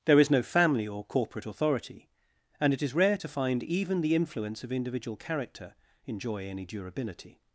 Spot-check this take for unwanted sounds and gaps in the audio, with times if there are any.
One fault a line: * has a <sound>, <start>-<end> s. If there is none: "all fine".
all fine